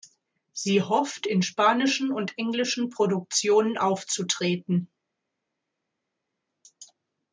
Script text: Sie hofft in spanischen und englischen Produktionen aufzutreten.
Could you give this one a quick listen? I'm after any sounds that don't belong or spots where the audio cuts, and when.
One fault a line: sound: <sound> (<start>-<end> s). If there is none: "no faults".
no faults